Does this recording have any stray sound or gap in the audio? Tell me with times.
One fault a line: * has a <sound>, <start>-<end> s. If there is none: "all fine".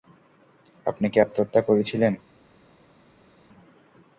all fine